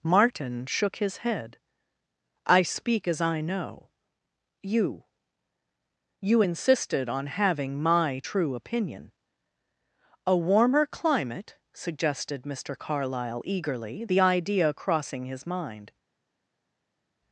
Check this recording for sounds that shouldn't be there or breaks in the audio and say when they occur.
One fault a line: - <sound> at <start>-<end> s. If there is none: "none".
none